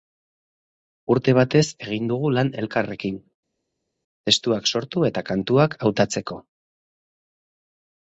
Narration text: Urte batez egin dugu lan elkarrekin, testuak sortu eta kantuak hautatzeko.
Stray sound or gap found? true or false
false